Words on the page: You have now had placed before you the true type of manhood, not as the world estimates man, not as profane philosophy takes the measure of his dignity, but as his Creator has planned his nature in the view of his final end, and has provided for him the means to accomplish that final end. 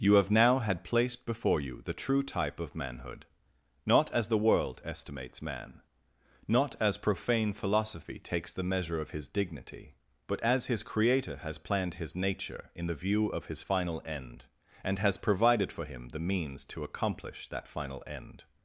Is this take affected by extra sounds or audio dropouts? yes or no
no